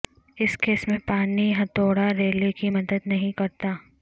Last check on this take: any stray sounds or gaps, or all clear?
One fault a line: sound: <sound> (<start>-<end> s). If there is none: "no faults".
no faults